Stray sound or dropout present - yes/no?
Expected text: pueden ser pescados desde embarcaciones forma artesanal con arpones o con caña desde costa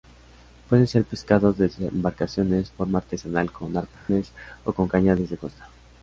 yes